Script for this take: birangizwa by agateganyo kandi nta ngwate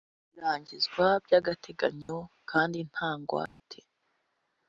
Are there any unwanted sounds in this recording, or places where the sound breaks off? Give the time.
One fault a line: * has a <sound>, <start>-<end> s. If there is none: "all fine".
* has a dropout, 2.0-2.1 s
* has a dropout, 3.5-3.6 s